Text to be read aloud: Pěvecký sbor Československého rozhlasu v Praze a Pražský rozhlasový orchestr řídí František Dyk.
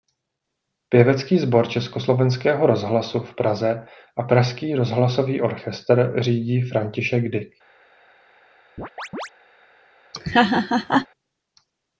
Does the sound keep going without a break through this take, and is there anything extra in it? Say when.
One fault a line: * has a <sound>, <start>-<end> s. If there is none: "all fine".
* has a chirp, 8.8-9.3 s
* has a laugh, 10.1-11.1 s